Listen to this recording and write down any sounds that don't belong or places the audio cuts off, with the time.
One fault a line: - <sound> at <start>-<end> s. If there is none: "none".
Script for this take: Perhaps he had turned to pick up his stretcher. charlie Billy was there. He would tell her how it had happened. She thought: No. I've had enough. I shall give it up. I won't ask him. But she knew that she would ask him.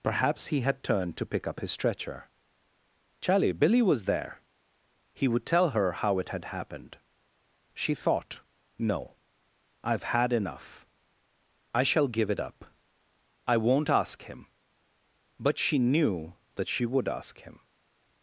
none